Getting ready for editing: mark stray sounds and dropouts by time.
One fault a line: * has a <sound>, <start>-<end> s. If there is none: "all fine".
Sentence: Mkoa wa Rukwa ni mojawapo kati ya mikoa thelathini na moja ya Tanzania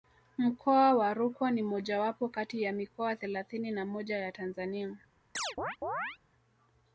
* has a chirp, 5.4-6.2 s